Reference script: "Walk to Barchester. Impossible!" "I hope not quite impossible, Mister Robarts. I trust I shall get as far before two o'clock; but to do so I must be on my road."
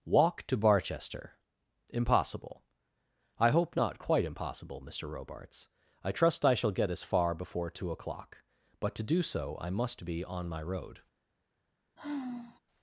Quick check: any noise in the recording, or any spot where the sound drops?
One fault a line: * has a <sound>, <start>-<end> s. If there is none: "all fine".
* has a sigh, 12.0-12.6 s